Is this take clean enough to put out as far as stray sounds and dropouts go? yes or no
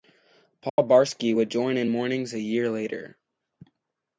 no